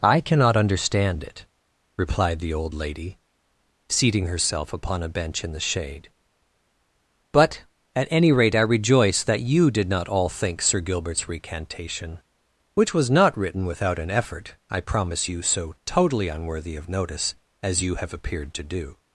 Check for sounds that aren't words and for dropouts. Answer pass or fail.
pass